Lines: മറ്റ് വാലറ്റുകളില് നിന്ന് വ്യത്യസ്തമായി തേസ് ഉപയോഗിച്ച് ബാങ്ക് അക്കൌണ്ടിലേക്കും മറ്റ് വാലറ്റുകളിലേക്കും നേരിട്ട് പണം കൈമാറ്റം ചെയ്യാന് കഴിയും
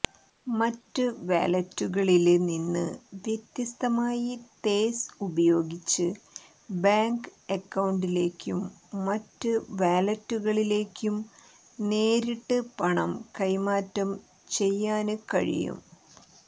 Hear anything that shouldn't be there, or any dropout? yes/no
no